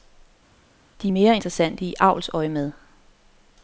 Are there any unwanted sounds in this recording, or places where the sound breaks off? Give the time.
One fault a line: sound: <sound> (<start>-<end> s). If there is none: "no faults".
no faults